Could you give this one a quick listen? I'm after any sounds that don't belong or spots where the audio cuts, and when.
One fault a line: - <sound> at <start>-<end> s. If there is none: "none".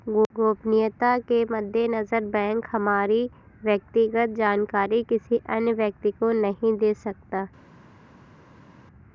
none